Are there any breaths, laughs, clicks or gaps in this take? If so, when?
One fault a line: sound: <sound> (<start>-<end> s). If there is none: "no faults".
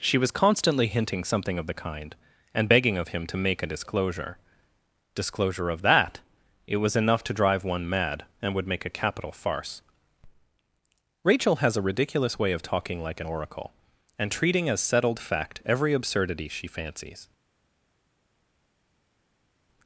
no faults